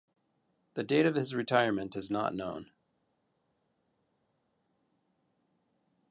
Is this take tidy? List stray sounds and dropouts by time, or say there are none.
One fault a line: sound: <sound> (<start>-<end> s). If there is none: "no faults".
no faults